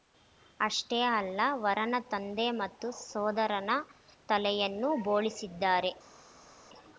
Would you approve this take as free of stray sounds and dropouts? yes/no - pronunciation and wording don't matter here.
yes